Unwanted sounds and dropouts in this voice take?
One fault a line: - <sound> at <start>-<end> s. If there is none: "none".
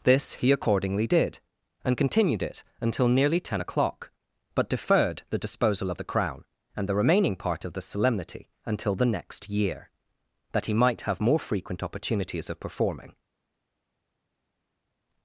none